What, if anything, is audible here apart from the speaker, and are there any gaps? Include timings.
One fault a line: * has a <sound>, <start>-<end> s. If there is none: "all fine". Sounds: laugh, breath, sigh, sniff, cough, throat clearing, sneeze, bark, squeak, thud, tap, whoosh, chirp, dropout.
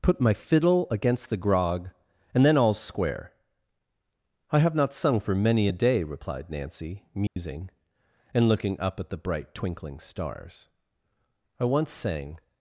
* has a dropout, 7.3-7.4 s